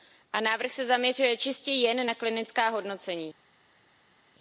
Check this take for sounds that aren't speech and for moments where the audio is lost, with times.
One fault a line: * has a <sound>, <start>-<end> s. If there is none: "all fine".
all fine